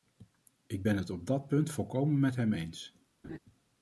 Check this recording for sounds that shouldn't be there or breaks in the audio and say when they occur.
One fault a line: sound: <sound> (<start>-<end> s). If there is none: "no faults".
sound: laugh (3.2-3.4 s)